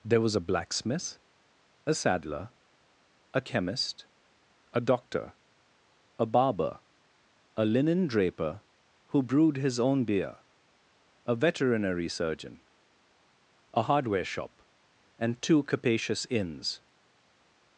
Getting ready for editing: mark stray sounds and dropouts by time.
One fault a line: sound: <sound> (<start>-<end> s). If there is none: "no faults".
no faults